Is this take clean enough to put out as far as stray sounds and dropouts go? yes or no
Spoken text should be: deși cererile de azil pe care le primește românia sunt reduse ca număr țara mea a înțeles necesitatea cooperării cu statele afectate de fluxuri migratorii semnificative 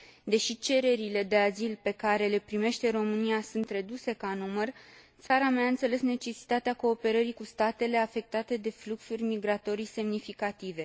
no